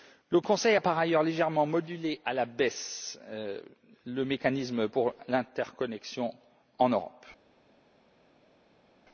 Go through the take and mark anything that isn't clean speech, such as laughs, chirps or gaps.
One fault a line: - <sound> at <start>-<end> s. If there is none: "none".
none